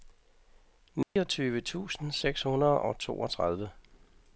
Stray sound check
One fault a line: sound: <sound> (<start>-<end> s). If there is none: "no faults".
sound: dropout (1.0-1.2 s)